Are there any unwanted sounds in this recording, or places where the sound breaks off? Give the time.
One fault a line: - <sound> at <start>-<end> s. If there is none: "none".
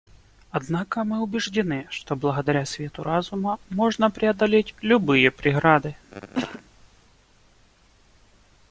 - cough at 6.1-6.6 s